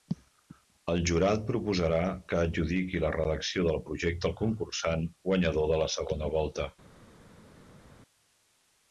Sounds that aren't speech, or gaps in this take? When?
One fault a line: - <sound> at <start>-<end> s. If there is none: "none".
none